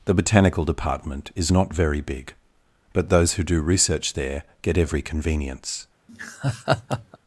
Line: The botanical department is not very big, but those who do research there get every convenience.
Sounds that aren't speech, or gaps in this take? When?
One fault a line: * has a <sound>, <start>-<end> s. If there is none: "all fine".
* has a laugh, 6.1-7.2 s